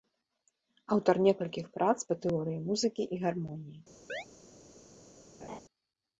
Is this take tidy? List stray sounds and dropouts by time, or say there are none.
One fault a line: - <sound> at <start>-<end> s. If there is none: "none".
- chirp at 4.1-4.3 s
- laugh at 5.4-5.6 s